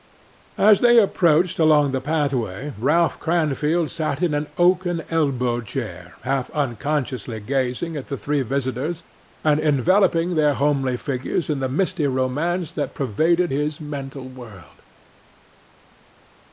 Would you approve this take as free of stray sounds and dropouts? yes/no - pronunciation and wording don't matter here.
yes